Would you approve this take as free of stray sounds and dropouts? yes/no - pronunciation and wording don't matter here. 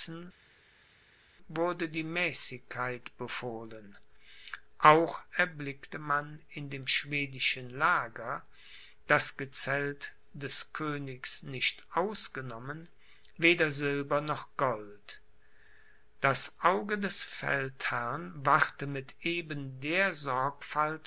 yes